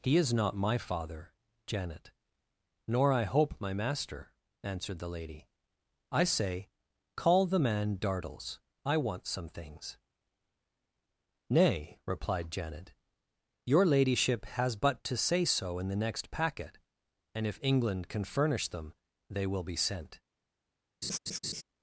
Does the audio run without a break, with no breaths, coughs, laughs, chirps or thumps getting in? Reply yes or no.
no